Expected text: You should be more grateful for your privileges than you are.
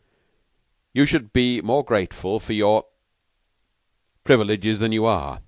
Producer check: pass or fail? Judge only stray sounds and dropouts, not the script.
pass